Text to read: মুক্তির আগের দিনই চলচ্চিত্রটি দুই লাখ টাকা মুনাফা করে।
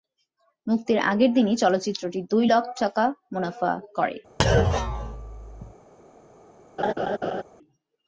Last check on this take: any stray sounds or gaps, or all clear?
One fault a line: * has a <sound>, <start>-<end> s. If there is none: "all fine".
* has a thud, 4.4-5.7 s
* has a laugh, 6.8-7.4 s